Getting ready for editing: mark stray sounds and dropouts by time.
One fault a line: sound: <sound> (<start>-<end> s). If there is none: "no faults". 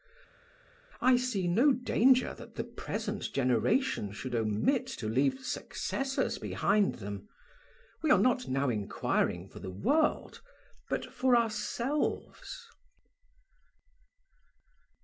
no faults